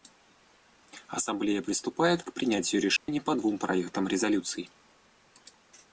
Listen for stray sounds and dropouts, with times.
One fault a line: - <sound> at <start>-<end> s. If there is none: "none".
- dropout at 3.0-3.1 s